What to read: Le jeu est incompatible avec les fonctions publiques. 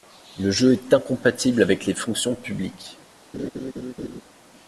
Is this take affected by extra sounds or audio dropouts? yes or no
yes